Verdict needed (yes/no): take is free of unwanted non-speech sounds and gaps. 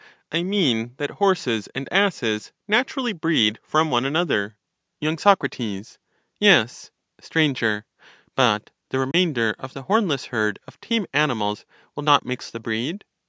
no